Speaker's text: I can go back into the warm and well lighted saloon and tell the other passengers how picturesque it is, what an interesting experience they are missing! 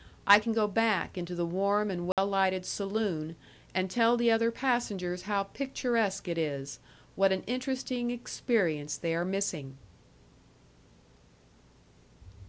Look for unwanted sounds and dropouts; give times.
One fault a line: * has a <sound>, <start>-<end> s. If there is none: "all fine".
* has a dropout, 2.1-2.2 s